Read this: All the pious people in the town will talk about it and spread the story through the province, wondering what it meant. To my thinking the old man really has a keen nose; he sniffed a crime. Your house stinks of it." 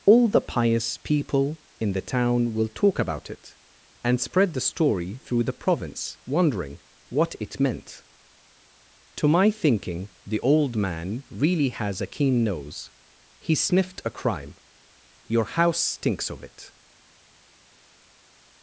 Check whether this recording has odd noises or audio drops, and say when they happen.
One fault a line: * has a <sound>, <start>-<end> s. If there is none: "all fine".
all fine